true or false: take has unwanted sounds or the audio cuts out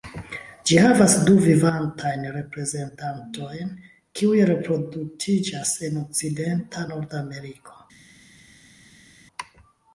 false